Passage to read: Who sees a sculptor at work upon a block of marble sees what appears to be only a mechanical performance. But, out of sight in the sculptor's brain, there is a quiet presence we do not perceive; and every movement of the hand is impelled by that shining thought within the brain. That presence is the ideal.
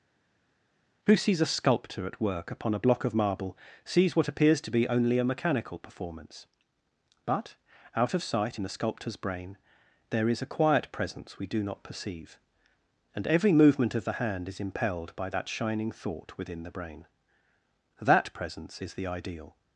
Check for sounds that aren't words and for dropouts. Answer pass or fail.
pass